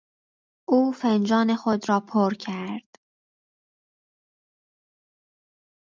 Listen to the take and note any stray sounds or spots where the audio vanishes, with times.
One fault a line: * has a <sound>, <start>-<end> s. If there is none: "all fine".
all fine